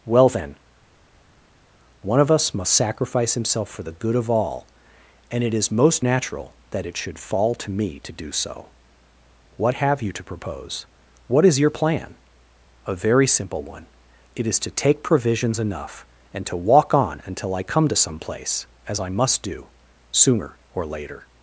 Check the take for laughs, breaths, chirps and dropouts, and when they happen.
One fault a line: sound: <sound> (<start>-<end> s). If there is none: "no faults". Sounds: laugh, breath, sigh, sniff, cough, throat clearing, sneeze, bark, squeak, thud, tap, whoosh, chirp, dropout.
no faults